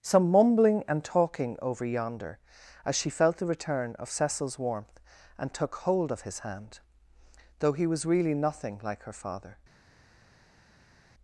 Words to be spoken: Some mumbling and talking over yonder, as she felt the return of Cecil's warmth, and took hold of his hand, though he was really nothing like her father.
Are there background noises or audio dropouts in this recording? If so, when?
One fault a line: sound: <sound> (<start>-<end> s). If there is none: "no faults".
no faults